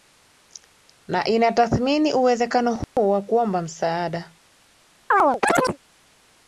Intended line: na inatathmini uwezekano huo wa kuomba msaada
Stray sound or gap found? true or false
true